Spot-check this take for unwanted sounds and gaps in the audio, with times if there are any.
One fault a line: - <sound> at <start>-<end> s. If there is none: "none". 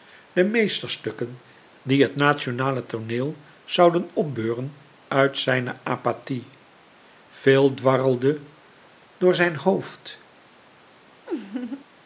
- laugh at 11.3-11.8 s